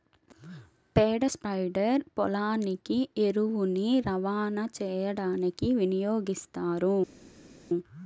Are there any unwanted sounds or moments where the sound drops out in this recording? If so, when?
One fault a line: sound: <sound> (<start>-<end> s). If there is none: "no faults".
no faults